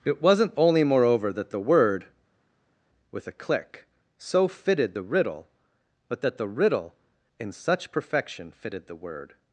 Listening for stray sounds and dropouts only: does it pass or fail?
pass